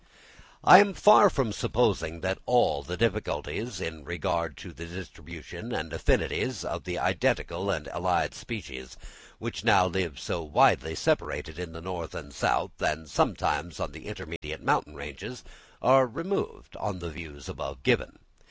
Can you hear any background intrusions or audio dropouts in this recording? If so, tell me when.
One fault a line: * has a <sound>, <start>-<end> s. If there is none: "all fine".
* has a dropout, 14.4-14.4 s